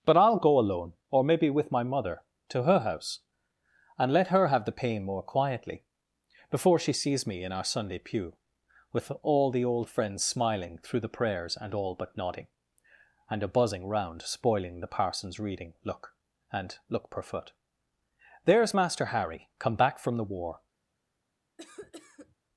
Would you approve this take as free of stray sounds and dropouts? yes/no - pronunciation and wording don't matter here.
no